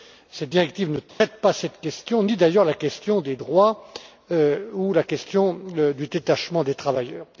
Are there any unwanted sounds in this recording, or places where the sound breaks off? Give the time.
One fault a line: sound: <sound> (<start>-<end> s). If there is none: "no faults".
sound: dropout (1.1-1.2 s)